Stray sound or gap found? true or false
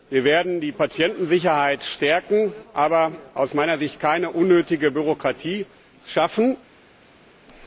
false